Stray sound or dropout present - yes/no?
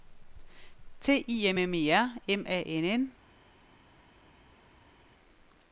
no